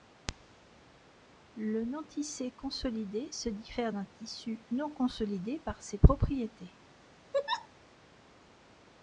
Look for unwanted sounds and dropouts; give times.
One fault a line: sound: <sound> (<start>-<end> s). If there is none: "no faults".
sound: laugh (7.3-7.7 s)